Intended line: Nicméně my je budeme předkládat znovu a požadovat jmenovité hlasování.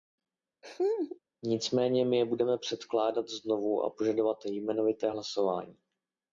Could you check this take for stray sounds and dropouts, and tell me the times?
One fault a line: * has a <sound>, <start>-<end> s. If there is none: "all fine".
* has a laugh, 0.6-1.2 s